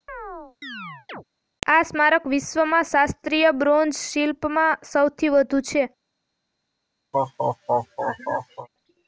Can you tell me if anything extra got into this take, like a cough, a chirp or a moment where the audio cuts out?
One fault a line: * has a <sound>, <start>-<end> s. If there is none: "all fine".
* has a chirp, 0.1-1.2 s
* has a laugh, 7.1-8.7 s